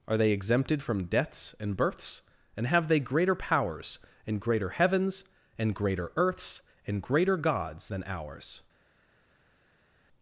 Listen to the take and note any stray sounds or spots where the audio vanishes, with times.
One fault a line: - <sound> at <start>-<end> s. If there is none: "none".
none